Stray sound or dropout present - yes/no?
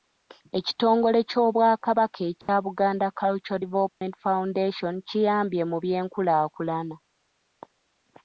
yes